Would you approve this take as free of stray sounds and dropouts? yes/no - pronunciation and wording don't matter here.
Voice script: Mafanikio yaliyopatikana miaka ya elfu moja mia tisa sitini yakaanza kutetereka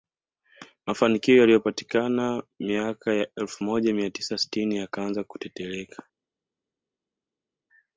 yes